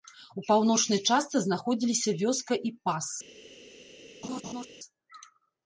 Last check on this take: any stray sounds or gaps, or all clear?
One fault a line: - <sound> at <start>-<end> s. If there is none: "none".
- laugh at 4.2-4.7 s